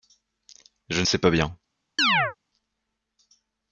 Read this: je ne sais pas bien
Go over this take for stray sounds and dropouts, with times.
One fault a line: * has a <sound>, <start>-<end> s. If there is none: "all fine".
* has a chirp, 2.0-2.4 s